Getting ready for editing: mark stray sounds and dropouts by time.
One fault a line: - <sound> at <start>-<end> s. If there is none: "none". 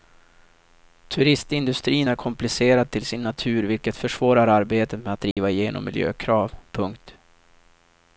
- dropout at 5.3-5.4 s